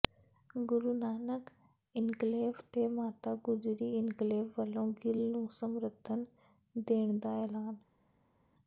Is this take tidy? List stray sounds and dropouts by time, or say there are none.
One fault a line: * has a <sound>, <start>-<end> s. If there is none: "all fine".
all fine